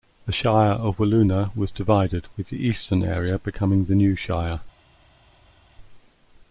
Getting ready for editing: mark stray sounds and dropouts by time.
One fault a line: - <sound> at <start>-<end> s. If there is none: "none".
none